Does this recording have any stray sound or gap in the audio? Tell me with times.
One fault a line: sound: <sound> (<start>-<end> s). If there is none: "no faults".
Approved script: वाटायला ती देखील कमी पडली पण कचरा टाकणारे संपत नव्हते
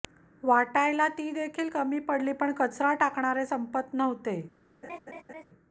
sound: laugh (4.8-5.4 s)